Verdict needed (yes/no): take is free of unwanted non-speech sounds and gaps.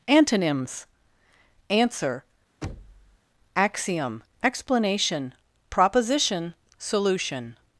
no